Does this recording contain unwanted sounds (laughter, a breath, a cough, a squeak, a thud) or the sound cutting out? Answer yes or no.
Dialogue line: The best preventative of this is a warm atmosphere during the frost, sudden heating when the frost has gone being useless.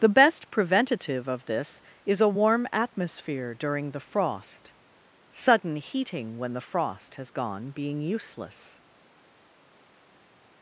no